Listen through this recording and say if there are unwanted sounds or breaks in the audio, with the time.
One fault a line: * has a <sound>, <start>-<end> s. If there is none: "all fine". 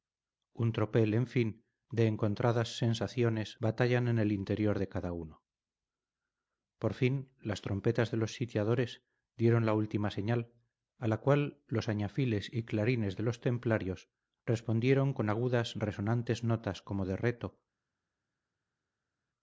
all fine